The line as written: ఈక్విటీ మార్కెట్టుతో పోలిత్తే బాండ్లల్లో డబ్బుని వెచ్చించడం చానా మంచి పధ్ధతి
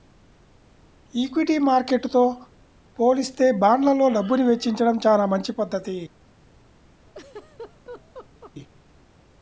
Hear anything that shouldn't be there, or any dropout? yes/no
yes